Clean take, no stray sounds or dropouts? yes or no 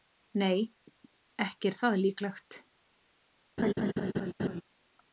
no